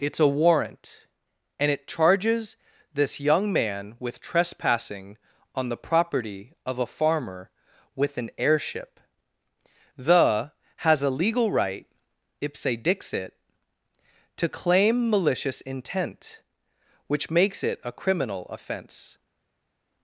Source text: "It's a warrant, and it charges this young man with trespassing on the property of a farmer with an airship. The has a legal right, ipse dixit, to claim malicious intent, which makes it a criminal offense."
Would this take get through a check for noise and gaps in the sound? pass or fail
pass